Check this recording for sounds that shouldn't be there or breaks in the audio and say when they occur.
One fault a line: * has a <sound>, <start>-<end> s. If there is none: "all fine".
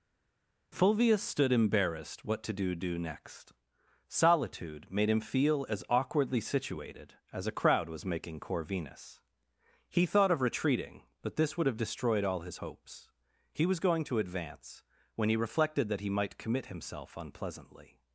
all fine